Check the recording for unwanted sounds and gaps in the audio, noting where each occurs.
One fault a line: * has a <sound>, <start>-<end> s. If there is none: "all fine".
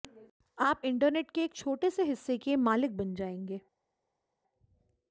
all fine